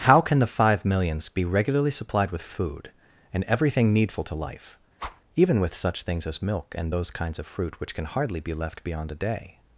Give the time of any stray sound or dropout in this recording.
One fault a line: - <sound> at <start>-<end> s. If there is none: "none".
- whoosh at 5.0-5.2 s